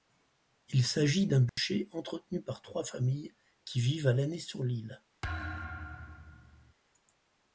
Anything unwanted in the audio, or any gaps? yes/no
yes